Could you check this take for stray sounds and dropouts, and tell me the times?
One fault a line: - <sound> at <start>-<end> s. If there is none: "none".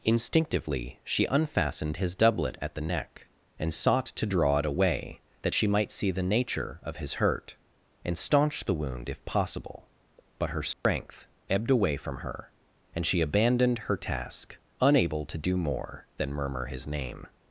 - dropout at 10.7-10.9 s